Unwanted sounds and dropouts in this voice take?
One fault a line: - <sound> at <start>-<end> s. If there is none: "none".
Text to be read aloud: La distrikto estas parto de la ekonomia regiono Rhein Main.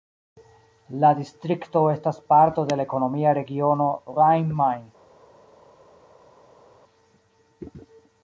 none